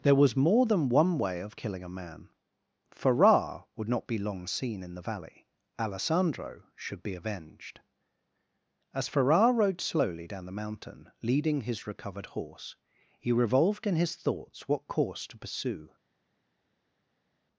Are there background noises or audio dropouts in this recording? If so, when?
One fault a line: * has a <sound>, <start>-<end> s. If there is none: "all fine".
all fine